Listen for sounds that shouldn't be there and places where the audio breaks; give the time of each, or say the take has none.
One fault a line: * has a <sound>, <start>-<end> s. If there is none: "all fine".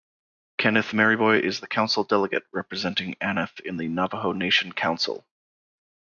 all fine